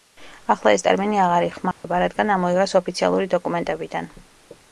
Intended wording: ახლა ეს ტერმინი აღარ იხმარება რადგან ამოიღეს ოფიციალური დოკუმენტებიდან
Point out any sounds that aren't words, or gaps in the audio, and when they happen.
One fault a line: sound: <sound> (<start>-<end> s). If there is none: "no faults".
sound: dropout (1.7-1.8 s)